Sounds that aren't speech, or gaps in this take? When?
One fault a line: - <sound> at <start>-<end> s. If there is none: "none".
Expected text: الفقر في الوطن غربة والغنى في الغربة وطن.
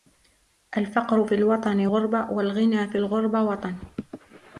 none